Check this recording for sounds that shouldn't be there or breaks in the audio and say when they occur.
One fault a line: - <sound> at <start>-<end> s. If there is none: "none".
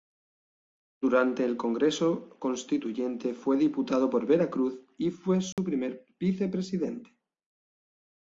- dropout at 5.5-5.6 s